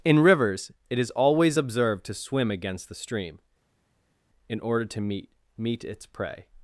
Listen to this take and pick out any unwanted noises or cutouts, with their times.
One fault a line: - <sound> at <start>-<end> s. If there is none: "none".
none